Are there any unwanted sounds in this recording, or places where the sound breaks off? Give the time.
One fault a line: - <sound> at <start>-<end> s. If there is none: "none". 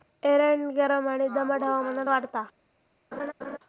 - laugh at 3.1-3.6 s